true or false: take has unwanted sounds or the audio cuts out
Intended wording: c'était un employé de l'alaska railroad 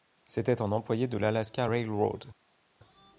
false